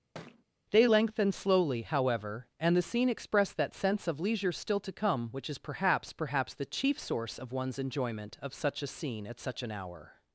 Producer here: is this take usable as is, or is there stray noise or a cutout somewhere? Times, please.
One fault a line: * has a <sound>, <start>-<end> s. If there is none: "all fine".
* has a thud, 0.1-0.4 s